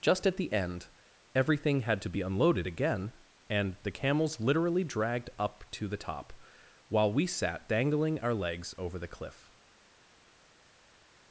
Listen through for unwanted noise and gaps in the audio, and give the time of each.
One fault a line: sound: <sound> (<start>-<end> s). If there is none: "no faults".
no faults